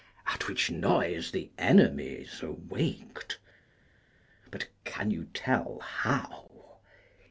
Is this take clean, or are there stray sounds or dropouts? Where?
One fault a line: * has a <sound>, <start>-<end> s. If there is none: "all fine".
all fine